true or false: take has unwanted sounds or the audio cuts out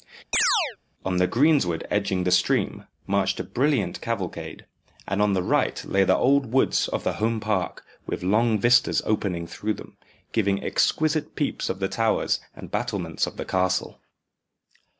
true